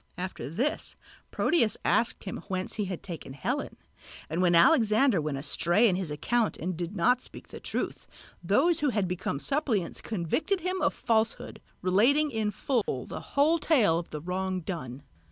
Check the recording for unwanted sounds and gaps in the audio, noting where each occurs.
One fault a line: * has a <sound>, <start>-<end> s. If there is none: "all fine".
* has a dropout, 12.8-12.9 s